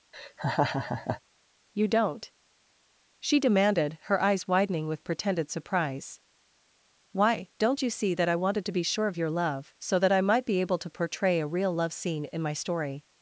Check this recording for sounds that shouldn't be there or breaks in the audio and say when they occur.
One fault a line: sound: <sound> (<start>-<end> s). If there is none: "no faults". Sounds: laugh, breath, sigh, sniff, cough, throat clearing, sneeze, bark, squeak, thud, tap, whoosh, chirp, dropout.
sound: laugh (0.1-1.2 s)